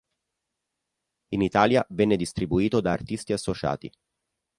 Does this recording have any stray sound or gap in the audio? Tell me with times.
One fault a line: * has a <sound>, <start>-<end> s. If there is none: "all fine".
all fine